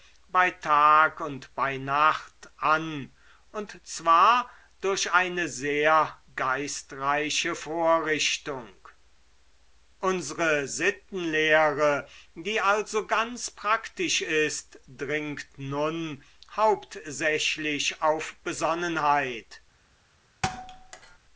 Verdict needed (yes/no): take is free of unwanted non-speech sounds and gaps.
no